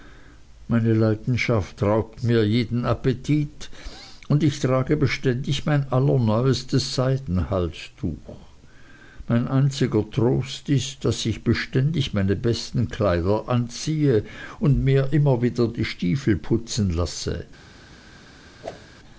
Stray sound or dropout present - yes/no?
yes